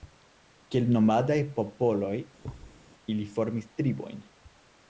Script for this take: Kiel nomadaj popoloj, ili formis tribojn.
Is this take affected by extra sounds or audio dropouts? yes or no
yes